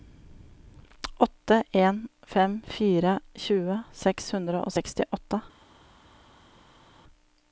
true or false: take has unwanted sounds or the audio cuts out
false